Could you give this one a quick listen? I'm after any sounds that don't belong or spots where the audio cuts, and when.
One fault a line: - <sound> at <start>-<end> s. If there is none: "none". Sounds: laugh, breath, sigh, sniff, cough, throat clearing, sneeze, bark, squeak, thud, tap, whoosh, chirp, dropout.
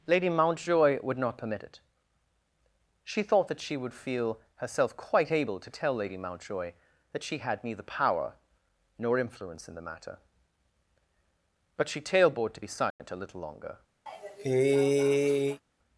- dropout at 12.9-13.0 s
- cough at 14.1-15.6 s